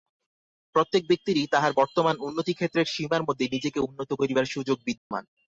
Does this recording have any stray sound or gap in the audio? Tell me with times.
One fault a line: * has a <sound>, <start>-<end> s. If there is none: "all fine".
* has a dropout, 5.0-5.1 s